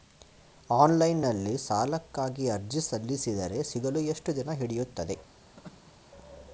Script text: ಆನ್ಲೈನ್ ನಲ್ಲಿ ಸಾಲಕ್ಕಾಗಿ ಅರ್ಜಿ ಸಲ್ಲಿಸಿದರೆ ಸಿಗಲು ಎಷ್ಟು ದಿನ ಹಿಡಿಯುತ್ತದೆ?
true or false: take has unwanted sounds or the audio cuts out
true